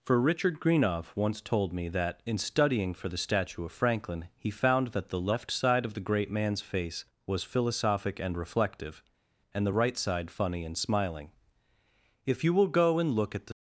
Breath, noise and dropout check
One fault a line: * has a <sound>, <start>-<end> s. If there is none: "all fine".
all fine